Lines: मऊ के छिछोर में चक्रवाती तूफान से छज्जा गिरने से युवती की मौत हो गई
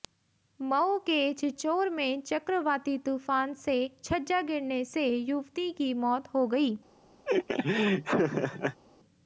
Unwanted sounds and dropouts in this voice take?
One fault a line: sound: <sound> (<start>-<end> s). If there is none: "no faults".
sound: laugh (7.3-8.8 s)